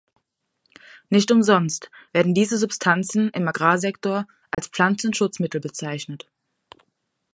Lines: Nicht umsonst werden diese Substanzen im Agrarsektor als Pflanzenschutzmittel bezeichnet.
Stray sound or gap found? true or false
true